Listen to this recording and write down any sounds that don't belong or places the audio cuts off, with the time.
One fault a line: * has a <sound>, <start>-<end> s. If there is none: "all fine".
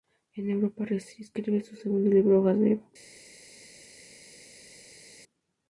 all fine